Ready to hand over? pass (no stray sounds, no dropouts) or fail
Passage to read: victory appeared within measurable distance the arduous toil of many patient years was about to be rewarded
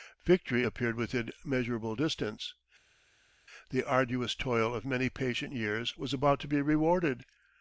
pass